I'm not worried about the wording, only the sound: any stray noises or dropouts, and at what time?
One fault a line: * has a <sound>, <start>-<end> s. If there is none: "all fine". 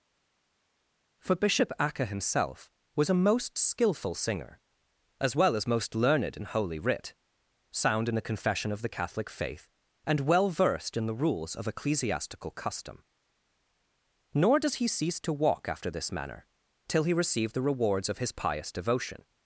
all fine